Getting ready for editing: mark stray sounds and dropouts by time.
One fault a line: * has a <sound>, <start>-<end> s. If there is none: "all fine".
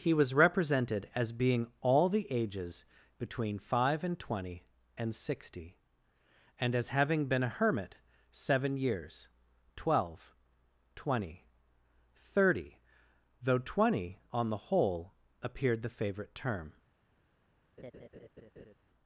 * has a laugh, 17.8-18.7 s